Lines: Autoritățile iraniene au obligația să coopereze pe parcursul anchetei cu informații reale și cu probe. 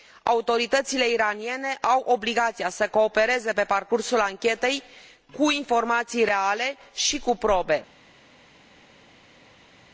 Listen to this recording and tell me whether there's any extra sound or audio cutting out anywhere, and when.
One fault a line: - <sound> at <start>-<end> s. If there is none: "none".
none